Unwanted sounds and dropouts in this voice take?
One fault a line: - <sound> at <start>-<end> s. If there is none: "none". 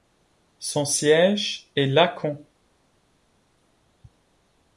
none